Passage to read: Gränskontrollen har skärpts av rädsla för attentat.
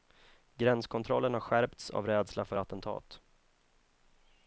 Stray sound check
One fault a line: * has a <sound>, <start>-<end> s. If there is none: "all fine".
all fine